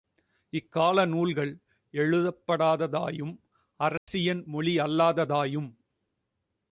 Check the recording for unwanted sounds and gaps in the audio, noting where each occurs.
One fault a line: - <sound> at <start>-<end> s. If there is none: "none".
- dropout at 4.0-4.1 s